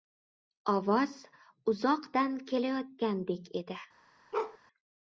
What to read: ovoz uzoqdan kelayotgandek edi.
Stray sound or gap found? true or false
true